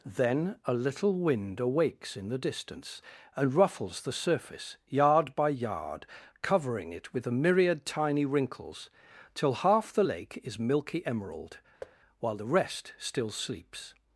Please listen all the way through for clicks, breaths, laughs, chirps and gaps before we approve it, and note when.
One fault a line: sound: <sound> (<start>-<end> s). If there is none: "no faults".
sound: thud (11.8-12.0 s)